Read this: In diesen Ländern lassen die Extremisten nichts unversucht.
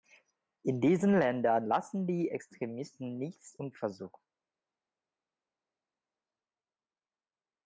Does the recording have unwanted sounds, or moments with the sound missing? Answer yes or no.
no